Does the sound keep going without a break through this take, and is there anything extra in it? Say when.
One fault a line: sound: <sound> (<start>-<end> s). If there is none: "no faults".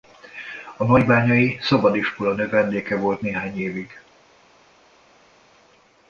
no faults